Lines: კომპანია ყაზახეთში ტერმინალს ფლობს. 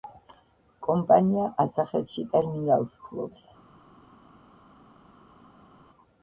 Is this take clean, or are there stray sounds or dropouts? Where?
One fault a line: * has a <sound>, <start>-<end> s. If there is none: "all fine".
all fine